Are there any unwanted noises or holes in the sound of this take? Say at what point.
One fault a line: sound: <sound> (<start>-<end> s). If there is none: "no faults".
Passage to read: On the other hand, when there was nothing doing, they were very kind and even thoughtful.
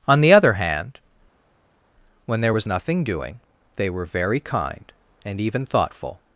no faults